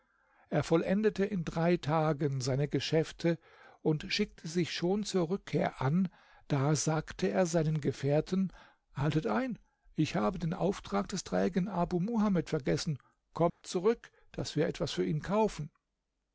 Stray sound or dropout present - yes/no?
yes